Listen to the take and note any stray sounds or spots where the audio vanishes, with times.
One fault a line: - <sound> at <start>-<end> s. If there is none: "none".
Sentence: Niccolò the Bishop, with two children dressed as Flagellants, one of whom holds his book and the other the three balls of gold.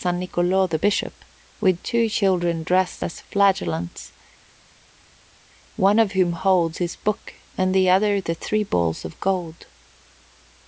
none